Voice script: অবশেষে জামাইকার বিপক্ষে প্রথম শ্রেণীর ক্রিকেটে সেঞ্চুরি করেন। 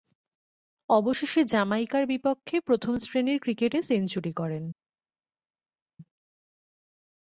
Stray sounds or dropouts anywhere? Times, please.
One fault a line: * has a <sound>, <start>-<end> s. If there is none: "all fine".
all fine